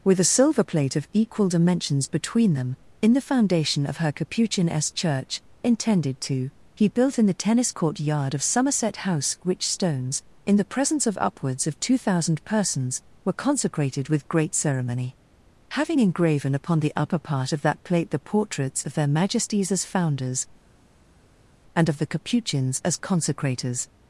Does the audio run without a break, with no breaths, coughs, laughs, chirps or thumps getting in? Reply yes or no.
yes